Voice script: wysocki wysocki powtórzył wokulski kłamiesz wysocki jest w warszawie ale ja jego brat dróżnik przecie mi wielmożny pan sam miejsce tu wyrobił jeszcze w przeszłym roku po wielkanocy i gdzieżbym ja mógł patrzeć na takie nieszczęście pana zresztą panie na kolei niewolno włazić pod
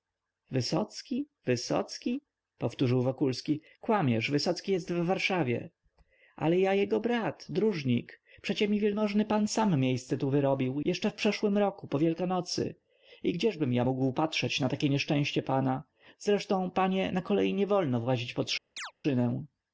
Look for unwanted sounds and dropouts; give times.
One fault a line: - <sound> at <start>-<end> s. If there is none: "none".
- chirp at 18.8-18.9 s